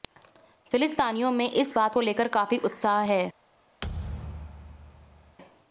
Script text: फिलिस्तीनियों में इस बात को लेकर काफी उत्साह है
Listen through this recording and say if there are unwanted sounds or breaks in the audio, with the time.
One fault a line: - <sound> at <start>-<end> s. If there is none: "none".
- thud at 3.8-5.4 s